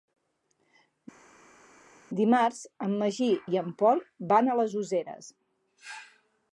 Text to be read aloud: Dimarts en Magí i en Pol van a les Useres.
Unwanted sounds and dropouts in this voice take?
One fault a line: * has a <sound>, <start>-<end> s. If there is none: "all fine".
all fine